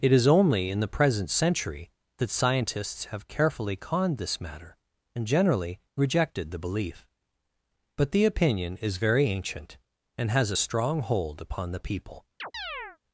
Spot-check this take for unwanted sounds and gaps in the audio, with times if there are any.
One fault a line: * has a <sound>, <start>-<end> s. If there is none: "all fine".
* has a chirp, 12.4-13.0 s